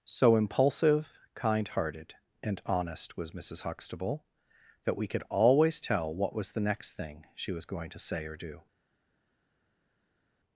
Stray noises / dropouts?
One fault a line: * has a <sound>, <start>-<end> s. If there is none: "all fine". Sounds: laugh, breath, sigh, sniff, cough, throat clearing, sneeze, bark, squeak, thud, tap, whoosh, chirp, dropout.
all fine